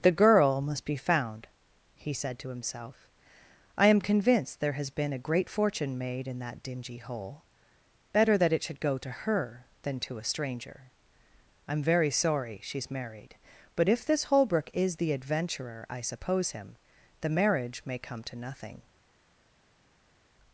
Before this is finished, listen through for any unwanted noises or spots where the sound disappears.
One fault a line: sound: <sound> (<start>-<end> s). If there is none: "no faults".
no faults